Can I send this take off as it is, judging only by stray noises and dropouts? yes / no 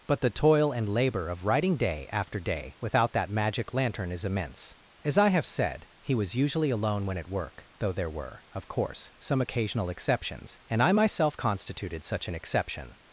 yes